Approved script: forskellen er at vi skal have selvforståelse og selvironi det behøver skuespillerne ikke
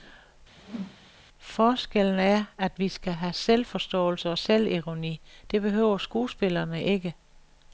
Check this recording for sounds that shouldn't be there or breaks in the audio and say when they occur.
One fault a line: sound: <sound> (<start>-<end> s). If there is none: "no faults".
sound: whoosh (0.6-1.1 s)